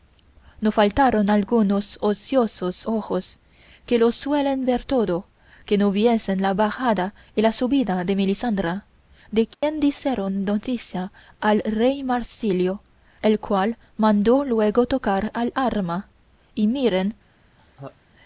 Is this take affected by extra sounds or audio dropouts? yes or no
yes